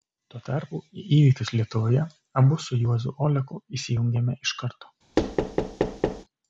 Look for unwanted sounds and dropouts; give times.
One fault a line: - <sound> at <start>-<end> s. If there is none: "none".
- thud at 5.2-6.2 s